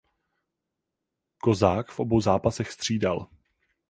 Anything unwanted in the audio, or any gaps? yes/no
no